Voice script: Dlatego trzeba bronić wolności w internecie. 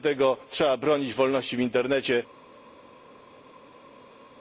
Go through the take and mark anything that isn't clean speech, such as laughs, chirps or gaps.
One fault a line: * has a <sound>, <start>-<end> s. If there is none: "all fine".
all fine